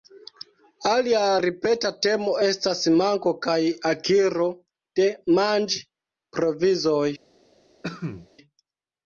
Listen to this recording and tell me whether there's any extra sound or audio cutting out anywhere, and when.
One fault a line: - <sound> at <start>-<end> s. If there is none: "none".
- cough at 7.8-8.3 s